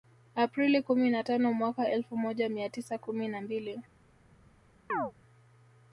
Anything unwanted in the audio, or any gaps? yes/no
yes